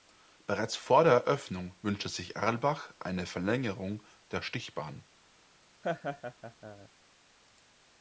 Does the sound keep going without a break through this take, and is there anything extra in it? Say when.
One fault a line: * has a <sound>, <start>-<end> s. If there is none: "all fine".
* has a laugh, 5.8-6.9 s